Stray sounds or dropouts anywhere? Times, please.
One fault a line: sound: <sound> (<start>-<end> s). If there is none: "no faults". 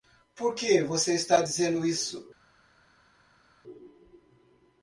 no faults